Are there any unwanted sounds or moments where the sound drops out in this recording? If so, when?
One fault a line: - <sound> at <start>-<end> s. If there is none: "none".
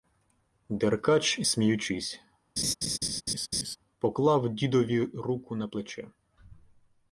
- laugh at 2.6-3.8 s